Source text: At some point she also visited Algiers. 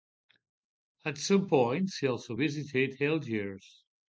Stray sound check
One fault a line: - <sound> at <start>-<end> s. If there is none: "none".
none